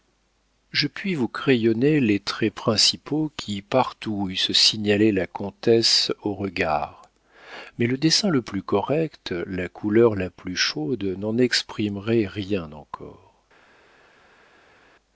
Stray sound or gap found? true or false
false